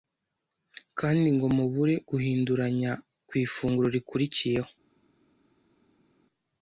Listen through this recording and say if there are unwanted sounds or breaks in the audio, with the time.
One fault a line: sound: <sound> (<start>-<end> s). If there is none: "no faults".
no faults